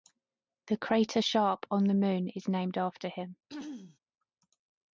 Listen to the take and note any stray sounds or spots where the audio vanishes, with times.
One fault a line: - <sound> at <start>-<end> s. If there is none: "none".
- throat clearing at 3.5-4.0 s